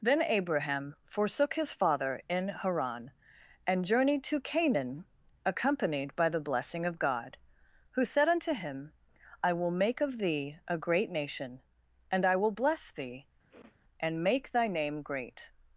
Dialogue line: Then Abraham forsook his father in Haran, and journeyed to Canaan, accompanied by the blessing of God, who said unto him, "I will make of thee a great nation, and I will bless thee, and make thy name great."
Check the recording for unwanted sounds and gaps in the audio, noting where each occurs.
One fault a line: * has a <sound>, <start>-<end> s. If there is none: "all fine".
* has a sniff, 13.5-13.8 s